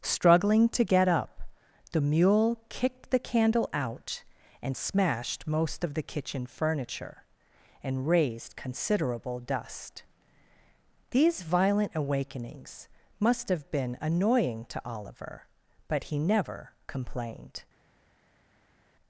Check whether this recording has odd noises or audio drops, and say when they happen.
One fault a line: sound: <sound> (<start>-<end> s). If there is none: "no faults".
no faults